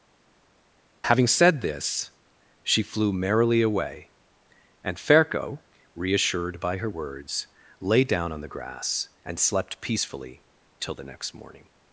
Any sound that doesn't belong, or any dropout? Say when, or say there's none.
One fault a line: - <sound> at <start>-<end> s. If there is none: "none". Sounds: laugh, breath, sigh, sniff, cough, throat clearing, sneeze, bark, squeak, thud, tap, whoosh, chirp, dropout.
none